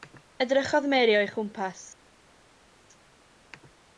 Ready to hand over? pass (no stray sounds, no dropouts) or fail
pass